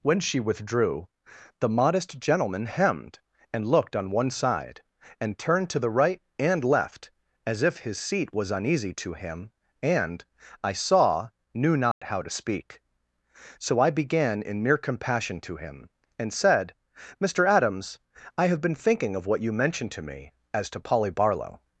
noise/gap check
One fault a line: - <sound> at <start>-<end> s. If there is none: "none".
- dropout at 11.9-12.0 s